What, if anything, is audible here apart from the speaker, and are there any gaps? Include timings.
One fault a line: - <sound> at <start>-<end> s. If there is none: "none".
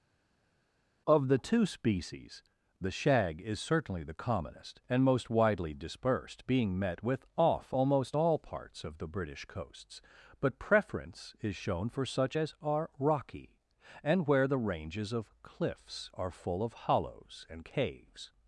none